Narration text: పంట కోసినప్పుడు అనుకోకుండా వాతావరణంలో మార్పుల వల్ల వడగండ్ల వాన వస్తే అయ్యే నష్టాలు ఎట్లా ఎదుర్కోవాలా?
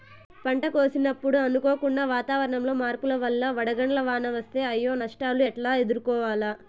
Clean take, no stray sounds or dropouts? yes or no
yes